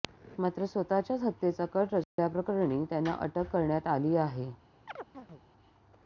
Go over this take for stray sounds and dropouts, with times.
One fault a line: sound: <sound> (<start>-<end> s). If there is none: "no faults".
sound: dropout (2.0-2.2 s)
sound: chirp (4.9-5.4 s)